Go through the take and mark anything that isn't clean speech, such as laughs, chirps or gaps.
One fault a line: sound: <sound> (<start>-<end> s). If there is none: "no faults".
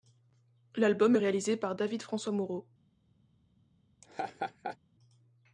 sound: laugh (4.0-4.8 s)